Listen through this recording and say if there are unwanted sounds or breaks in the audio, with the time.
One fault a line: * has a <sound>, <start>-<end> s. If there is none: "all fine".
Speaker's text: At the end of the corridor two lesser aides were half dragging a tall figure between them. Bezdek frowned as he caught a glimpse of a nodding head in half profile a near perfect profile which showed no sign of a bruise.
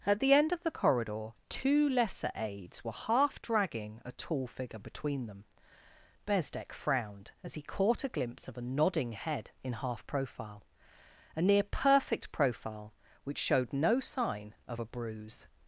all fine